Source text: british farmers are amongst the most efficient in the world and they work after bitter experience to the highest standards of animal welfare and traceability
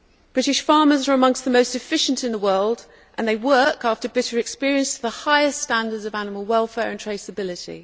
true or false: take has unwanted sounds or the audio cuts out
false